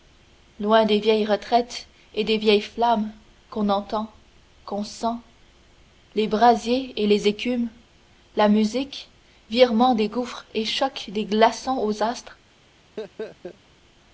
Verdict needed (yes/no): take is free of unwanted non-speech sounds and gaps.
no